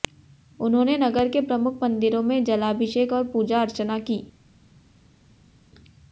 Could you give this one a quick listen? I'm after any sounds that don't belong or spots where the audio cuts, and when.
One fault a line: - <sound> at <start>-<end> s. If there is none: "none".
none